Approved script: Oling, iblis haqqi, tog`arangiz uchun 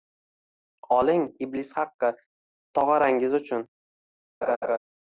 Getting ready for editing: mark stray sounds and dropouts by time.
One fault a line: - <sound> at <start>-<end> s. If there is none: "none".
- laugh at 4.4-4.8 s